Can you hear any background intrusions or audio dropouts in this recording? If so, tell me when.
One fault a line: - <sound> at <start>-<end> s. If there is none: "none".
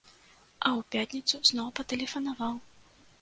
none